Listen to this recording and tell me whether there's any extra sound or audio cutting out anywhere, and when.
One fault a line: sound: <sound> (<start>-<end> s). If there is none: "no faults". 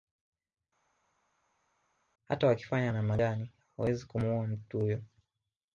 no faults